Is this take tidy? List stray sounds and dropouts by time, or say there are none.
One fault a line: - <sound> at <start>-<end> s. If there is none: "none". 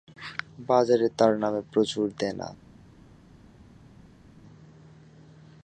none